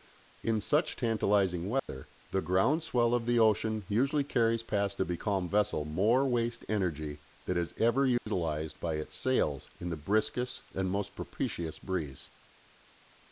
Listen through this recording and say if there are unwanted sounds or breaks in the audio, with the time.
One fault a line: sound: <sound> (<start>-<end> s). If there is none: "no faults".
sound: dropout (1.8-1.9 s)
sound: dropout (8.2-8.3 s)